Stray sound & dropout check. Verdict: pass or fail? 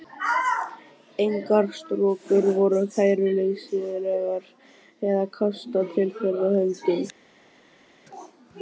pass